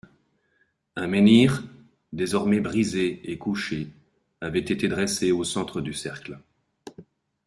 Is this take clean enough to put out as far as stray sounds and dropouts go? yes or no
yes